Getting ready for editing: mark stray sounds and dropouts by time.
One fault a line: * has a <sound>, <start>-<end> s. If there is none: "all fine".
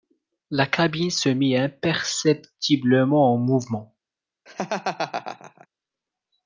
* has a laugh, 4.5-5.7 s